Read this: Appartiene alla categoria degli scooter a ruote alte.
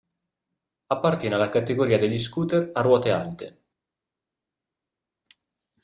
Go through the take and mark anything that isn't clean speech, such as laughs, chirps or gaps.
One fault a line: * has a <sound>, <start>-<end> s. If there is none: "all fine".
all fine